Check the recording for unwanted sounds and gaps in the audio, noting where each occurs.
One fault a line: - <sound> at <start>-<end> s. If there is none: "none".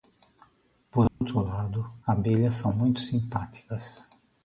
- dropout at 1.1-1.2 s